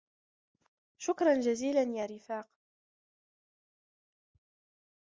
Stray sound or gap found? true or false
false